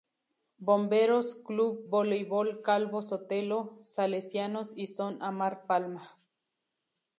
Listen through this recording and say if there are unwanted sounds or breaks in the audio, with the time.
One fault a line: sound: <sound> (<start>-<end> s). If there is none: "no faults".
no faults